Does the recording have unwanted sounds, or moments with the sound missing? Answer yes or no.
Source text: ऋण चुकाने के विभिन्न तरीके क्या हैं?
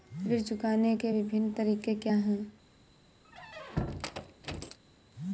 yes